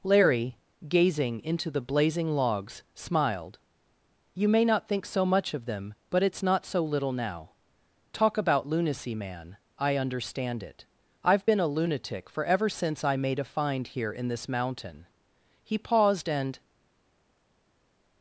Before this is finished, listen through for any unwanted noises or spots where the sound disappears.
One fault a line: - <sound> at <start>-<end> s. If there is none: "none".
none